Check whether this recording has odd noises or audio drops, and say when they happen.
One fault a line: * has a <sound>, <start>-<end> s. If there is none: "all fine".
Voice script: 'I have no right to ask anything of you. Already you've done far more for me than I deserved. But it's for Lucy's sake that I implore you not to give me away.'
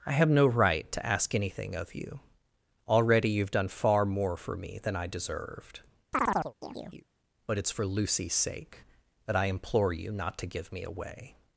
* has a chirp, 6.1-7.1 s